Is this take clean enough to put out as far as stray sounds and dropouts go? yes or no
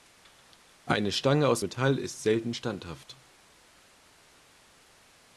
yes